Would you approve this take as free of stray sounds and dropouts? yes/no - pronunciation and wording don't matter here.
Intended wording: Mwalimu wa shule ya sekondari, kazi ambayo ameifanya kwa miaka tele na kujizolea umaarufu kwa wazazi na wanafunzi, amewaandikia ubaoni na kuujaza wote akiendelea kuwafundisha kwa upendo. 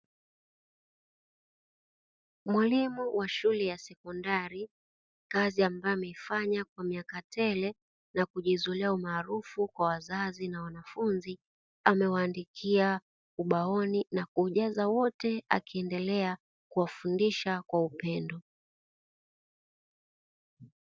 yes